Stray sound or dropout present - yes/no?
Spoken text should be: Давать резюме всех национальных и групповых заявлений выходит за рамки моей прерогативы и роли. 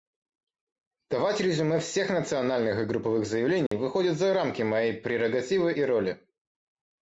yes